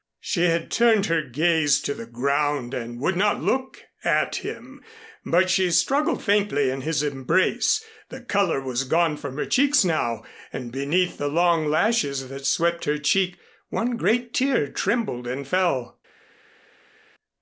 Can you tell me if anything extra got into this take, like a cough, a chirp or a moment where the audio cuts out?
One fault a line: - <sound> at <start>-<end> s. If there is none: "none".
none